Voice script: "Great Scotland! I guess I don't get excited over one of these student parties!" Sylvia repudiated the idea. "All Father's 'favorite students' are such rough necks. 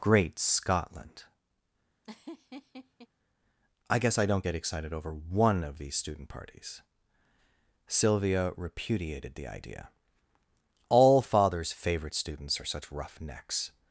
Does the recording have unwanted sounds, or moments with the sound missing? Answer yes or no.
yes